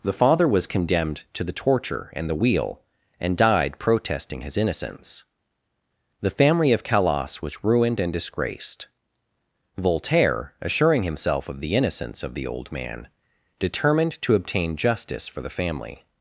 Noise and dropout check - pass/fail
pass